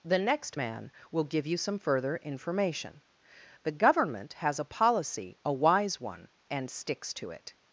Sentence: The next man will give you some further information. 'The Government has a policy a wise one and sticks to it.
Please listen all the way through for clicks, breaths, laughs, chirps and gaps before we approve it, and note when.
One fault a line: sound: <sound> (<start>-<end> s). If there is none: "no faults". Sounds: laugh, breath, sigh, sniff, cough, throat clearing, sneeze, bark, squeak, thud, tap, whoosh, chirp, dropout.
no faults